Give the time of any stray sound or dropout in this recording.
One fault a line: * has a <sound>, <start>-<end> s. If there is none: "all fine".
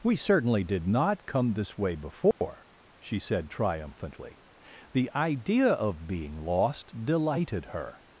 * has a dropout, 2.3-2.4 s